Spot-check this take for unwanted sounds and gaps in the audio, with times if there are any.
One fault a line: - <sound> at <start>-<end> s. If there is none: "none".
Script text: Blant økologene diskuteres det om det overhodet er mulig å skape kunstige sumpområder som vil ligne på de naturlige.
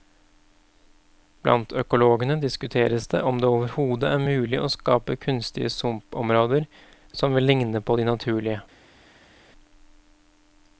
none